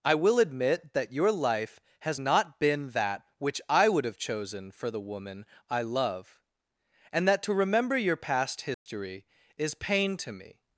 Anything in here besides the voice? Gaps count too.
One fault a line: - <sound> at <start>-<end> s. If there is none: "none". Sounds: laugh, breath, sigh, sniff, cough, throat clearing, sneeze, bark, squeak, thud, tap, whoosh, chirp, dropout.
- dropout at 8.7-8.9 s